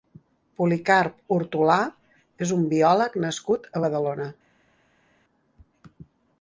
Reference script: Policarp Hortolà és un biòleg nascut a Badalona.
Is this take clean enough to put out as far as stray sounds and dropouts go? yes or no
yes